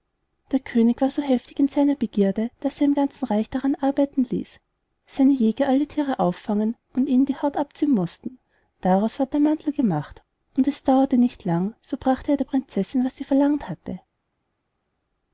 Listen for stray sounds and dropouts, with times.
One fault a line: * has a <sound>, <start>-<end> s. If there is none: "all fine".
all fine